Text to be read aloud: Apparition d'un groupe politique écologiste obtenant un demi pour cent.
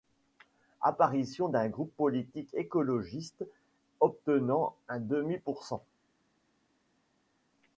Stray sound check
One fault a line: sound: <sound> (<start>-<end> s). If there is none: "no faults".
no faults